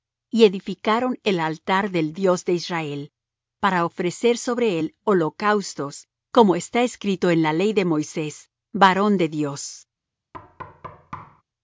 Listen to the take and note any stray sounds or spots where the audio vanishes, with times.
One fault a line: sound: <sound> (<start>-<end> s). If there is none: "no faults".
sound: thud (10.3-11.4 s)